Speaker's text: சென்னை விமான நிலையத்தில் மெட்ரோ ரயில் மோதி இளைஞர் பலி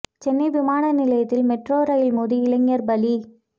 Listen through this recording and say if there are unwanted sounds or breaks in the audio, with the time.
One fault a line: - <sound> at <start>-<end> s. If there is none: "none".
none